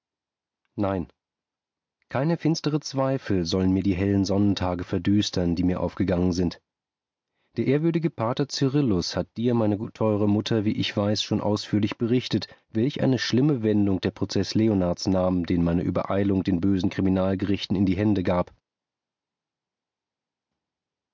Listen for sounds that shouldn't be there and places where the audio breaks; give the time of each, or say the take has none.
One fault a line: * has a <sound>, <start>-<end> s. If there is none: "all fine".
all fine